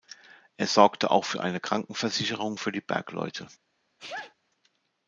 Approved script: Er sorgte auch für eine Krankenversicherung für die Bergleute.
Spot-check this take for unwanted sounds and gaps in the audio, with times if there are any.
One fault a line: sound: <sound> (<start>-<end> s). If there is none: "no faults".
sound: sneeze (4.0-4.3 s)